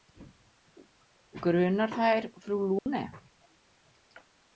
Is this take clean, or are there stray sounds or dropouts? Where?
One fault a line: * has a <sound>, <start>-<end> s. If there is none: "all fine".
* has a dropout, 2.8-2.9 s